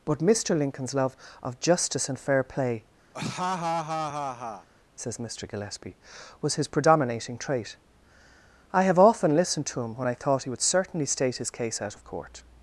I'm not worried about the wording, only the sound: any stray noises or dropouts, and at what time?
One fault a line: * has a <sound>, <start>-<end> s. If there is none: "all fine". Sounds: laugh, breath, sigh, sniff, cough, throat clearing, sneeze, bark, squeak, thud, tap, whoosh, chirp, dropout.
* has a laugh, 3.1-4.7 s